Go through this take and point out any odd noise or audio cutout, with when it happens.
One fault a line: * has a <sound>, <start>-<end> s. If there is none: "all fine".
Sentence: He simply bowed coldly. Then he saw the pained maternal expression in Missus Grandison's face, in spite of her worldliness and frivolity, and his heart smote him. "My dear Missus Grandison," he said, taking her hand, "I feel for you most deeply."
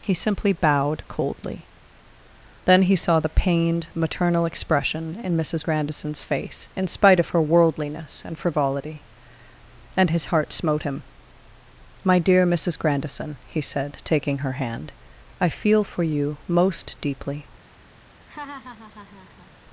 * has a laugh, 18.3-19.5 s